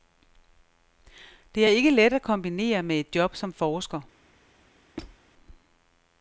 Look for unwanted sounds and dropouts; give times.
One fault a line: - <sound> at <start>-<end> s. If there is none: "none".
- squeak at 5.0-5.2 s